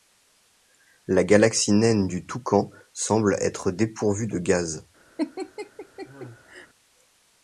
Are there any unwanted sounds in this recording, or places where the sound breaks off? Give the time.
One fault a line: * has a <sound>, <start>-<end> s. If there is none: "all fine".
* has a laugh, 5.2-6.7 s